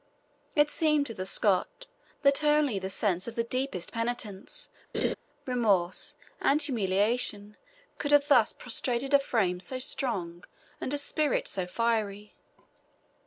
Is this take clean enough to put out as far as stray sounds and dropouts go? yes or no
no